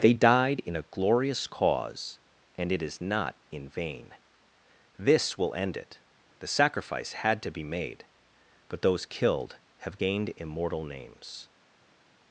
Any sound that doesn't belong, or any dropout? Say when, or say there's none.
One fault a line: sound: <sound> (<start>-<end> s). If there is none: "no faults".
no faults